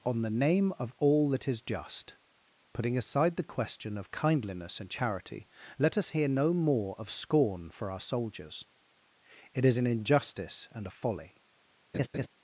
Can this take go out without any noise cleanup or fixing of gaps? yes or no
no